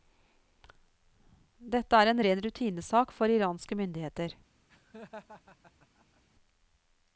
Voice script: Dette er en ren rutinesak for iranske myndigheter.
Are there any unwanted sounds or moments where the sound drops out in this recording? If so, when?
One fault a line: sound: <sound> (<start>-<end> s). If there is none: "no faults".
sound: laugh (4.7-6.2 s)